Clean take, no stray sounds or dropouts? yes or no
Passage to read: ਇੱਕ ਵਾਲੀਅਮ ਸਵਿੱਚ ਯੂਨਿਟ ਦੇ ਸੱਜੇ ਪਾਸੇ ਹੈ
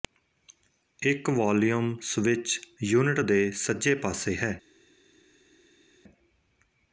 yes